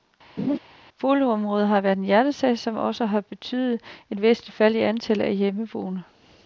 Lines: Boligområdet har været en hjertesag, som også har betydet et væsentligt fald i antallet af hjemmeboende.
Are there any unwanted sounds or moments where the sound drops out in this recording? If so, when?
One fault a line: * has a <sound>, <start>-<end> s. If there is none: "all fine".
* has a laugh, 0.4-0.6 s